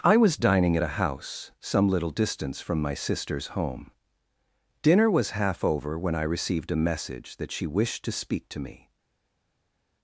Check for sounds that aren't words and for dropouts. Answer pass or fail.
pass